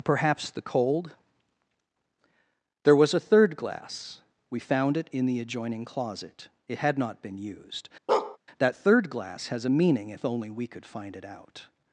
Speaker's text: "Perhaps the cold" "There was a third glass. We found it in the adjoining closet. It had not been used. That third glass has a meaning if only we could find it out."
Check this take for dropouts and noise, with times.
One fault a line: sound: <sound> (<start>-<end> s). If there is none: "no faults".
sound: bark (8.1-8.4 s)